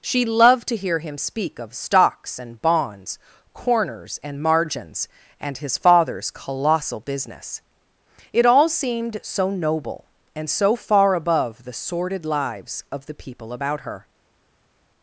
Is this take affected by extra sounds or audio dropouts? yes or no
no